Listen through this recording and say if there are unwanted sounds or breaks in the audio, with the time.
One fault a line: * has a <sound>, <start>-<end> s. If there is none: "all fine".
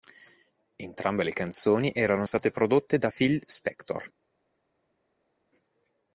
all fine